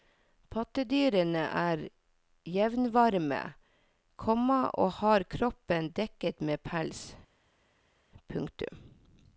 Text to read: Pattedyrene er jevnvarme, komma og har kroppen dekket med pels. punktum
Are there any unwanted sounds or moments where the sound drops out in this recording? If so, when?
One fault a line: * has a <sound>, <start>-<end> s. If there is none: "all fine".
all fine